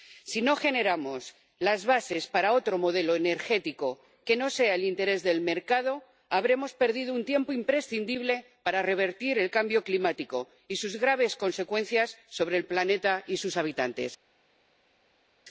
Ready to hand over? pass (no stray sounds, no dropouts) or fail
pass